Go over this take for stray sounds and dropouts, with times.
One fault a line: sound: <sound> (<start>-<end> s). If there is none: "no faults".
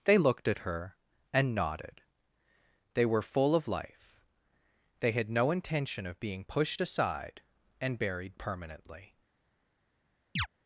sound: chirp (10.4-10.5 s)